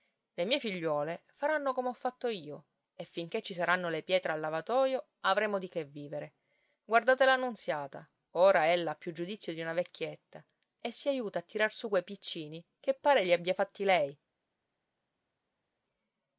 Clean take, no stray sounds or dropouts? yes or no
yes